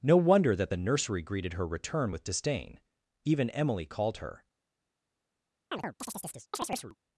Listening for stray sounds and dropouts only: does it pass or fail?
fail